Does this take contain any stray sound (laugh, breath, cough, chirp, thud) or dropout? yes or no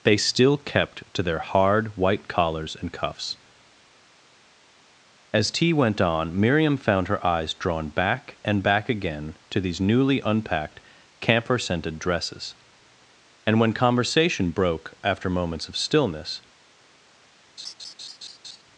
yes